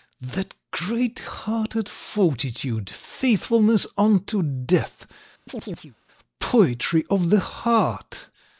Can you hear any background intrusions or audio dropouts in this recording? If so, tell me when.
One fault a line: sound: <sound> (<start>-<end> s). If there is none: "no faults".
sound: chirp (5.5-6.0 s)